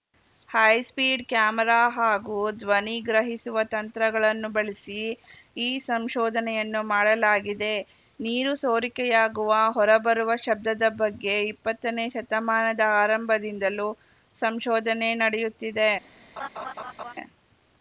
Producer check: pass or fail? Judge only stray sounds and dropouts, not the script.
fail